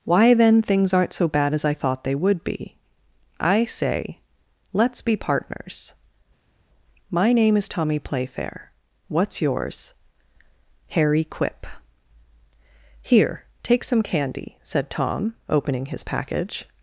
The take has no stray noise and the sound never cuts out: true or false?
true